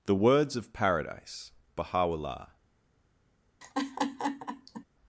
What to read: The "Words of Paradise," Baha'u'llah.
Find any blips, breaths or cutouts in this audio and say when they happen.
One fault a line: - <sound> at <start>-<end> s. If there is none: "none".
- laugh at 3.6-4.8 s